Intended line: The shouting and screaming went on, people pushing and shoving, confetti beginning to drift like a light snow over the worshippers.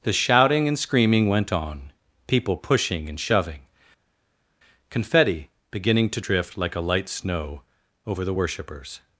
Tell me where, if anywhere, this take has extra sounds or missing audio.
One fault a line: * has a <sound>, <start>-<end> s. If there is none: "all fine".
all fine